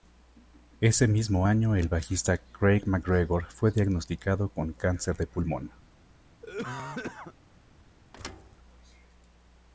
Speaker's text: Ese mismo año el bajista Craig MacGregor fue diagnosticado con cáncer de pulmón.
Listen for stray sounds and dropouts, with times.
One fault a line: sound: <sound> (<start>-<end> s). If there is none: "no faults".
sound: cough (6.4-7.3 s)
sound: thud (8.1-8.6 s)